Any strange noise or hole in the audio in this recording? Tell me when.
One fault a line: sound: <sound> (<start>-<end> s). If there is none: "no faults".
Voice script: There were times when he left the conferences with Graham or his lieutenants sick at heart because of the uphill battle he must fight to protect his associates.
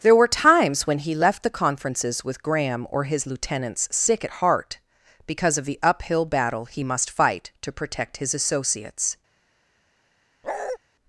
sound: bark (10.4-10.8 s)